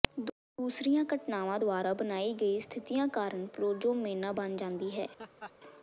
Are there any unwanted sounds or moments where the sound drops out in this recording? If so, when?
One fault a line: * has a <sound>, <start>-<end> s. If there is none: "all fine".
* has a laugh, 5.2-5.5 s